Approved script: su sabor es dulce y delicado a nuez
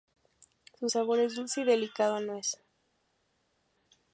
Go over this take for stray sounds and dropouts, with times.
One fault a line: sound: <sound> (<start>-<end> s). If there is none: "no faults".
no faults